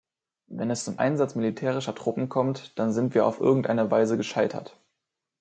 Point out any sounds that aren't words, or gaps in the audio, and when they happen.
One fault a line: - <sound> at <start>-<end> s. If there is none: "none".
none